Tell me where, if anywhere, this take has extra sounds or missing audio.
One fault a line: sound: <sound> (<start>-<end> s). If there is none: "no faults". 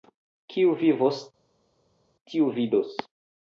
no faults